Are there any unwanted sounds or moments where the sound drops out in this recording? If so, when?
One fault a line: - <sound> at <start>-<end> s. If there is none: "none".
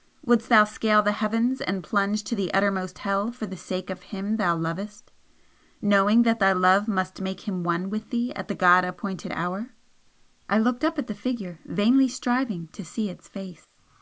none